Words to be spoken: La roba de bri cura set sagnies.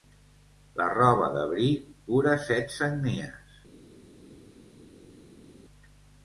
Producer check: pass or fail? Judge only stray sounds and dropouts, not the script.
pass